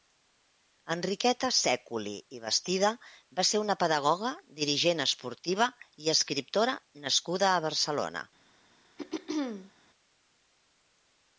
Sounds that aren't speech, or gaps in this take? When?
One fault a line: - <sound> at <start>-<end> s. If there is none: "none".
- throat clearing at 9.0-9.7 s